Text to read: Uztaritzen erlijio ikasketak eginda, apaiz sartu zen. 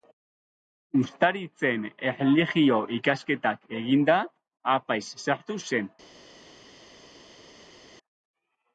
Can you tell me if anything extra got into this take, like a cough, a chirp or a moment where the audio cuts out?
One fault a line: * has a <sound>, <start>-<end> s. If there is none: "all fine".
all fine